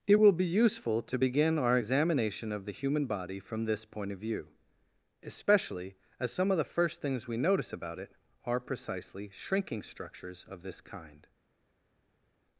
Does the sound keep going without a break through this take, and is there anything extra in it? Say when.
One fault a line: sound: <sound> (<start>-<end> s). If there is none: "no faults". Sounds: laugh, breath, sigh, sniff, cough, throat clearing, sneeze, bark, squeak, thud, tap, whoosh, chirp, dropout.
no faults